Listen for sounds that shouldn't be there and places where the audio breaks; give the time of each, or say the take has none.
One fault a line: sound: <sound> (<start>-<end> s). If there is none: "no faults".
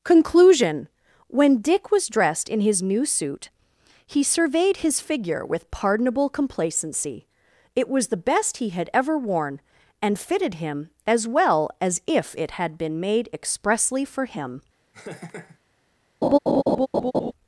sound: laugh (14.9-15.6 s)
sound: laugh (16.2-17.3 s)